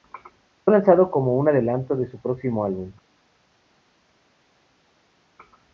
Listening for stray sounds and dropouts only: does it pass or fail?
pass